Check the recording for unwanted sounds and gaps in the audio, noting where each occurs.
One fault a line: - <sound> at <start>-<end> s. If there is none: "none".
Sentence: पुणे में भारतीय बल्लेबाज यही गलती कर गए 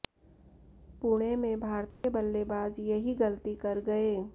- dropout at 1.9-2.0 s